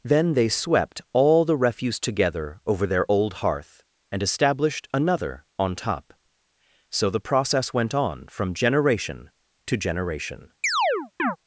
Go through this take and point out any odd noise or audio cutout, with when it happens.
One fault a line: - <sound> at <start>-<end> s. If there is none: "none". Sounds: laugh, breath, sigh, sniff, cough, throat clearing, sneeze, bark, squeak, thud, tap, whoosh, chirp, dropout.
- chirp at 10.6-11.4 s